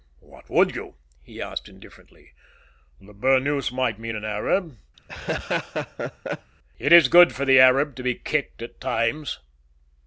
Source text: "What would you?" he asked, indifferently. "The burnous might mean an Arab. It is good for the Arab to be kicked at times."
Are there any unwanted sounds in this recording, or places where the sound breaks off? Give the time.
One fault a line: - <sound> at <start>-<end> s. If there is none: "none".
- laugh at 5.0-6.5 s